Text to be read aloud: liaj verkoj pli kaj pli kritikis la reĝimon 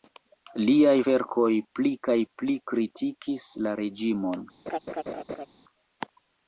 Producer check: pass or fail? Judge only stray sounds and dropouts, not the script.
fail